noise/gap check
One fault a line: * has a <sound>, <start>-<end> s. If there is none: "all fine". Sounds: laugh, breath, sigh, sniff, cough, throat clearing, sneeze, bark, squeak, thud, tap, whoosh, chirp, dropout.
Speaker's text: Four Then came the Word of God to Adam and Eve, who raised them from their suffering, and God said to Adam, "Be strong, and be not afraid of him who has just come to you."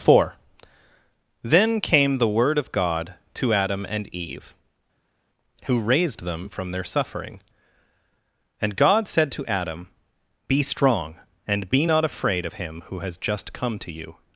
all fine